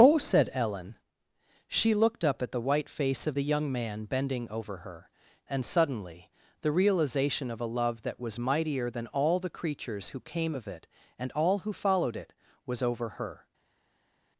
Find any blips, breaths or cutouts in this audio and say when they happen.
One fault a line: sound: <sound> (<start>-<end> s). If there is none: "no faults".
no faults